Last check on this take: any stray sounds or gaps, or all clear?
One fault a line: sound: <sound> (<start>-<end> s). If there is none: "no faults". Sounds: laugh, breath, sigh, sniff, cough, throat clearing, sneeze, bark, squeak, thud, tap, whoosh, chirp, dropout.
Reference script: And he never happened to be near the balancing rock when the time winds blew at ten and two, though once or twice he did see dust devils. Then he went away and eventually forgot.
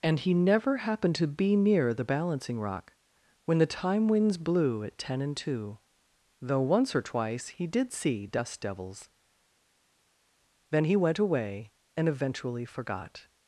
no faults